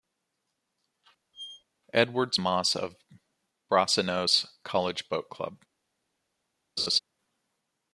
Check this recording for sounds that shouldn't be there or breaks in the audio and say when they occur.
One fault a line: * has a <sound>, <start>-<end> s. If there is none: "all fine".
* has a squeak, 1.3-1.6 s
* has a laugh, 6.8-7.0 s